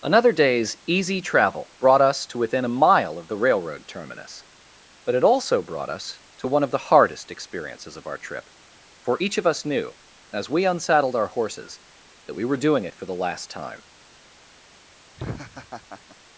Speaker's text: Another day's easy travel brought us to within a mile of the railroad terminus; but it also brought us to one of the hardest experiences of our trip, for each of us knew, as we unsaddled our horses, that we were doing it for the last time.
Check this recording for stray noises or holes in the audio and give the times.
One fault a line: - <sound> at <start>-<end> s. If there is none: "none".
- laugh at 15.2-16.2 s